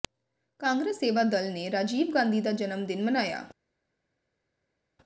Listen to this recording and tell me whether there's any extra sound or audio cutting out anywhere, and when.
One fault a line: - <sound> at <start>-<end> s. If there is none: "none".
none